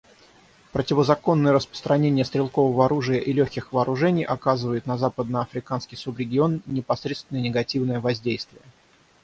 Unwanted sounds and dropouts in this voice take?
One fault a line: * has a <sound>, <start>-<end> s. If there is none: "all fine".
all fine